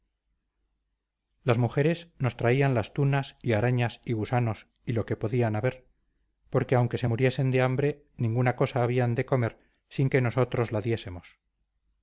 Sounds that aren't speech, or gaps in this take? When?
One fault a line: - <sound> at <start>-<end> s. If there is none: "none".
none